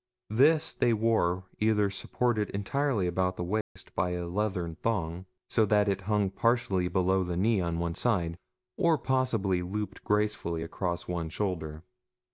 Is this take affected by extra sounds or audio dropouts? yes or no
yes